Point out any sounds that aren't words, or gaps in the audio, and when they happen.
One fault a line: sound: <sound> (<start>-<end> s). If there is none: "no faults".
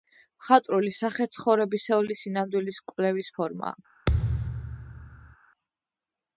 sound: thud (4.1-5.4 s)